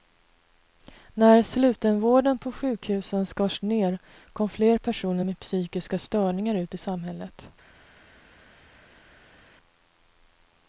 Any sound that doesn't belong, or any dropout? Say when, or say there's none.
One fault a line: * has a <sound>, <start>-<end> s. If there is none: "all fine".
all fine